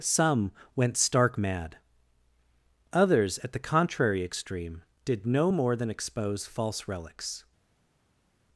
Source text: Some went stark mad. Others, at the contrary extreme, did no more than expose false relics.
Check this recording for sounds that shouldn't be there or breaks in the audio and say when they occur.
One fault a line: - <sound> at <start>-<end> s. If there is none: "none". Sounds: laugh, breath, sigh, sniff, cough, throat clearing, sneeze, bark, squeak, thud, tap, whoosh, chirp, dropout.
none